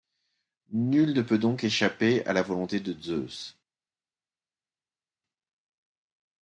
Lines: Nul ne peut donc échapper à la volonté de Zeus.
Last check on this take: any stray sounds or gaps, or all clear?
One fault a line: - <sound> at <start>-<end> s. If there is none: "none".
none